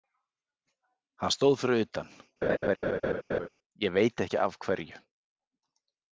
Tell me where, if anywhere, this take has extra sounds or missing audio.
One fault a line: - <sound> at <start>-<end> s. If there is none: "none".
- laugh at 2.4-3.5 s